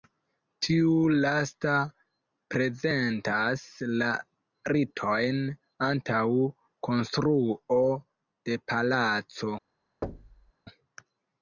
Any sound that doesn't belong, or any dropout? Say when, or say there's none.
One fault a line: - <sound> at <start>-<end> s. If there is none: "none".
- thud at 10.0-10.5 s